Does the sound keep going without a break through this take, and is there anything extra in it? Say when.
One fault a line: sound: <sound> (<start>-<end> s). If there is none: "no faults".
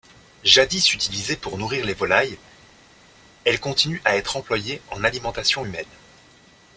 no faults